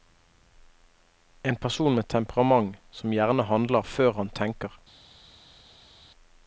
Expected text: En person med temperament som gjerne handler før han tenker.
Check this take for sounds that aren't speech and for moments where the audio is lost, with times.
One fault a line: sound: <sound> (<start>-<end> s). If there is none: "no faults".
no faults